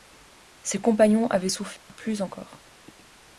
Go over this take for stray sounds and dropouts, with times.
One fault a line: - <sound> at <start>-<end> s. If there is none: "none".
- dropout at 1.8-1.9 s